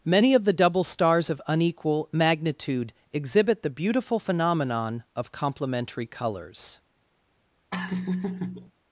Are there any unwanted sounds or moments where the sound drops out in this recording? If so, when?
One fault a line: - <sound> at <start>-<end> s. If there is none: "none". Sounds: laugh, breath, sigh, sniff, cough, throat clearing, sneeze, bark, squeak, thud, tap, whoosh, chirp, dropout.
- laugh at 7.7-8.7 s